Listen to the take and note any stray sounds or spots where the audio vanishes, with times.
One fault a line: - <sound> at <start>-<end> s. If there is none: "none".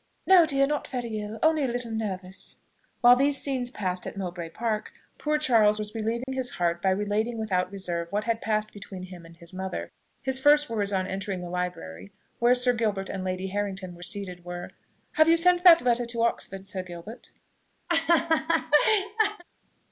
- dropout at 6.2-6.3 s
- laugh at 17.9-19.4 s